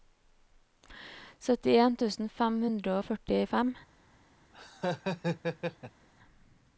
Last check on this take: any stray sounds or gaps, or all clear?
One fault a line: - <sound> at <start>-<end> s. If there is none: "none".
- laugh at 4.5-6.1 s